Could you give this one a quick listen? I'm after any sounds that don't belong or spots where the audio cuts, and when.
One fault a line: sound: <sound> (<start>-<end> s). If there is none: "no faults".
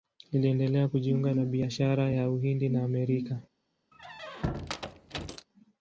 sound: squeak (3.9-5.5 s)